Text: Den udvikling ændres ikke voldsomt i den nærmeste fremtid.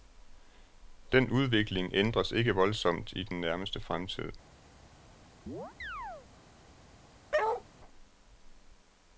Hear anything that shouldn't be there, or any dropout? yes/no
yes